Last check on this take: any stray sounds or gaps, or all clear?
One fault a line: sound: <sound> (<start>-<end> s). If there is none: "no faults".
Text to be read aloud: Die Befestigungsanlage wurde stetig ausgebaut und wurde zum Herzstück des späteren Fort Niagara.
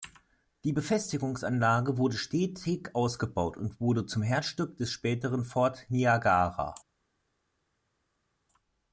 no faults